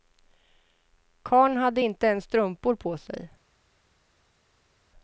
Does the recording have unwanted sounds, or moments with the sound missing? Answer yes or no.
no